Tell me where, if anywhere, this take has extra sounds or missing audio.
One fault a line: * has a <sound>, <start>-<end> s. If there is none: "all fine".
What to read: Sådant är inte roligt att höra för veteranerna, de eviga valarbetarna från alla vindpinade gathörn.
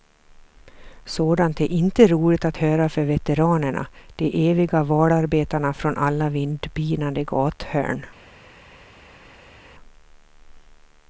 all fine